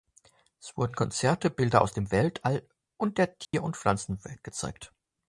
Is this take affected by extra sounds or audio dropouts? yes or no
yes